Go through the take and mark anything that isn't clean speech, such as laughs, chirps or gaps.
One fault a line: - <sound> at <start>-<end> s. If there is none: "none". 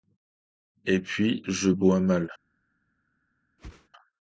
- whoosh at 3.6-3.9 s